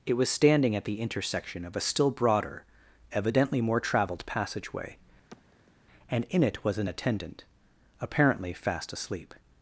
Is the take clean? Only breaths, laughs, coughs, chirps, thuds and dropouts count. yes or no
no